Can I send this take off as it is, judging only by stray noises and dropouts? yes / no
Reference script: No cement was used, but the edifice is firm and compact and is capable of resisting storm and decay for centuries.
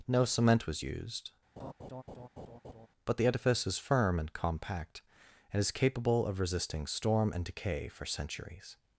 no